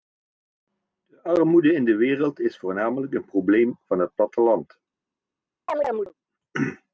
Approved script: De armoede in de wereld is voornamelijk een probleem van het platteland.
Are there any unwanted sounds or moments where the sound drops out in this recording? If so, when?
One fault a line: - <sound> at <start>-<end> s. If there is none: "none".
- chirp at 5.7-6.1 s